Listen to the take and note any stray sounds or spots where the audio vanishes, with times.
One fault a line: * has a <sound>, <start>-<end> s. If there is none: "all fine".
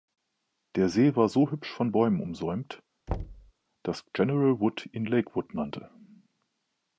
* has a thud, 3.1-3.5 s